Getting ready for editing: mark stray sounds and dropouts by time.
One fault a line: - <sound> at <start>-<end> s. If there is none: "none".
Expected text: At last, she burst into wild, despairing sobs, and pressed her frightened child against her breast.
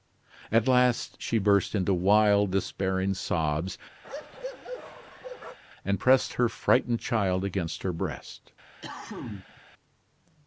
- bark at 4.0-5.6 s
- cough at 8.8-9.6 s